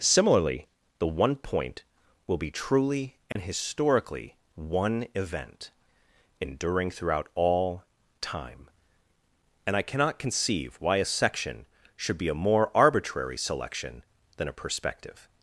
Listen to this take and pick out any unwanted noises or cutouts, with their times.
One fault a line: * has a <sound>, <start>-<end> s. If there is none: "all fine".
* has a dropout, 3.3-3.4 s